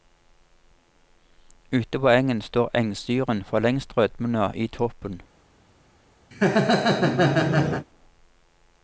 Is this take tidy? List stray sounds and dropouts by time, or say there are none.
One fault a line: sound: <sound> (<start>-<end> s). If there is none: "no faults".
sound: laugh (6.3-7.9 s)